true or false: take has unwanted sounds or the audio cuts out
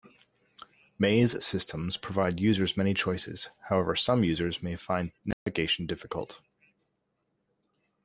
true